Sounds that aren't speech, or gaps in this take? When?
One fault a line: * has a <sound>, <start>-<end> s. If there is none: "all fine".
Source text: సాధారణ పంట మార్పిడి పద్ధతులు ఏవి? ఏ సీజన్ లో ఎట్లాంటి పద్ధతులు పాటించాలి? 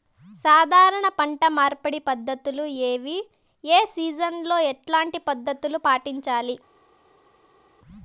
all fine